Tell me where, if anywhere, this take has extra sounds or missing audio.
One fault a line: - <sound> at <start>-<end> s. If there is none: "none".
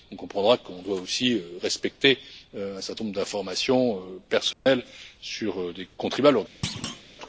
- dropout at 4.5-4.7 s
- thud at 6.6-7.0 s